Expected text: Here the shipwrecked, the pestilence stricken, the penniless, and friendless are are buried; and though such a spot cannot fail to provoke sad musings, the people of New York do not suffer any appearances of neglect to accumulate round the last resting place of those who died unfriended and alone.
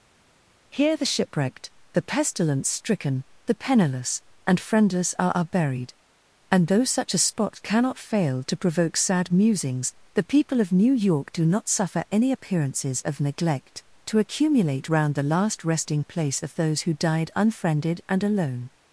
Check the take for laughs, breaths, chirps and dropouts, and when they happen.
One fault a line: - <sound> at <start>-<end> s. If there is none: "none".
none